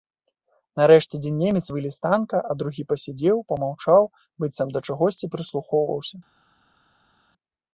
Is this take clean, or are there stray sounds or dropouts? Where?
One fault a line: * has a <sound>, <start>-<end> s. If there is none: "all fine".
all fine